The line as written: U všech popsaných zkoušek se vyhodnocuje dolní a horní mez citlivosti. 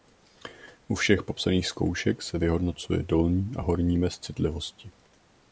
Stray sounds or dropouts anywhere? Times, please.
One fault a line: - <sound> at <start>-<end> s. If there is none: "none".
none